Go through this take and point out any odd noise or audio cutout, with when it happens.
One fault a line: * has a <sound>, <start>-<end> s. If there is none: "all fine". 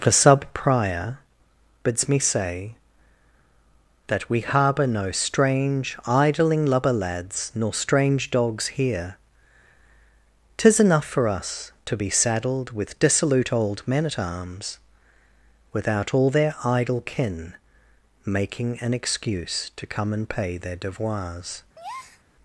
* has a breath, 21.8-22.2 s